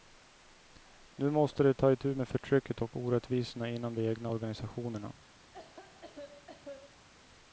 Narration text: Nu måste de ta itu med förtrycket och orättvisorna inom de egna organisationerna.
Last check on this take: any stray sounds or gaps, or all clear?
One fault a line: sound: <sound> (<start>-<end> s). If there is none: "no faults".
sound: cough (5.5-7.1 s)